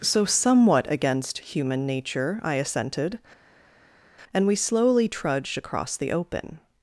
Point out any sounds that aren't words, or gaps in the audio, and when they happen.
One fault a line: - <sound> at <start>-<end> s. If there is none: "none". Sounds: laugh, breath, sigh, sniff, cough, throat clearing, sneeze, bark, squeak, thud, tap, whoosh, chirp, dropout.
none